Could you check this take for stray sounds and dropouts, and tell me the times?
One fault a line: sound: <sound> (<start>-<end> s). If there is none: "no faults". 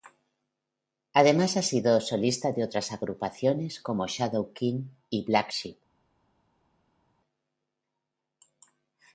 no faults